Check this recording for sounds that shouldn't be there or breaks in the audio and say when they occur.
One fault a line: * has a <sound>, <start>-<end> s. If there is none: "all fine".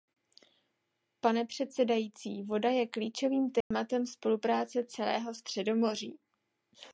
* has a dropout, 3.6-3.7 s